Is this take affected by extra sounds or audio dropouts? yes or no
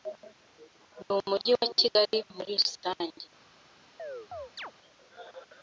yes